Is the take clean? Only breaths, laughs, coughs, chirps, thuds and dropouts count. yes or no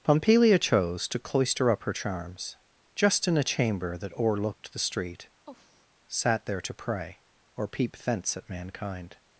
no